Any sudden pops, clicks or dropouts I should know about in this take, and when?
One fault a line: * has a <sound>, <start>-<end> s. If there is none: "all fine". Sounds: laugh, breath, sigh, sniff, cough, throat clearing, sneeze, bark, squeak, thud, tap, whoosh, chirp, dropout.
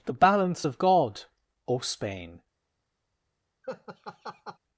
* has a laugh, 3.6-4.6 s